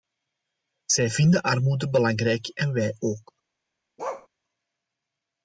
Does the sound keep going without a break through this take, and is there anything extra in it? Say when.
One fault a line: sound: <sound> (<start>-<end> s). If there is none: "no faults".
sound: bark (4.0-4.3 s)